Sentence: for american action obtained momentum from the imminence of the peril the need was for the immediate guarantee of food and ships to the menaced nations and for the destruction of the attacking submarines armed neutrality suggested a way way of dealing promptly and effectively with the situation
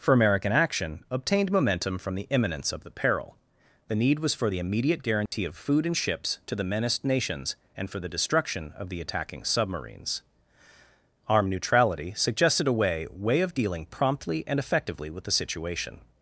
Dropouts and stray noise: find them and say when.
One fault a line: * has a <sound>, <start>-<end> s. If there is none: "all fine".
* has a dropout, 5.3-5.3 s